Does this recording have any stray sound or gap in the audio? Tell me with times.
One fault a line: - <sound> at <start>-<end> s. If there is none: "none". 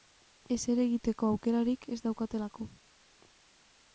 none